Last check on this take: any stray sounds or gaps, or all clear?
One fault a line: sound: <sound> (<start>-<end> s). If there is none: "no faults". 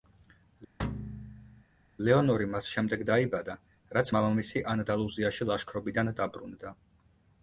sound: thud (0.8-1.6 s)